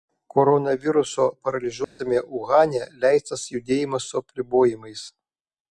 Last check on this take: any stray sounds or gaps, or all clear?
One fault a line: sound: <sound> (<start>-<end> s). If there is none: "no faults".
sound: dropout (1.8-2.0 s)